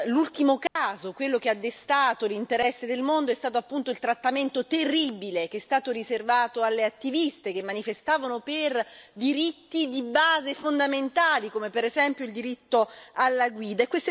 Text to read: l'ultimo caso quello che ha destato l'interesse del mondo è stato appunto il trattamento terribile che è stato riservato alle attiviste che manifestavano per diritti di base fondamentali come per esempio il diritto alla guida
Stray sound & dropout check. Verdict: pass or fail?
fail